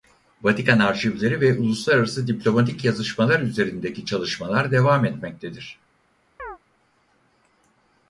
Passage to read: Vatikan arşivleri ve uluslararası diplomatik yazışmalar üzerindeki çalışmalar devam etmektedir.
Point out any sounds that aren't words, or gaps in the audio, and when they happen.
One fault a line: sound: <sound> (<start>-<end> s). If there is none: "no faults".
sound: chirp (6.4-6.6 s)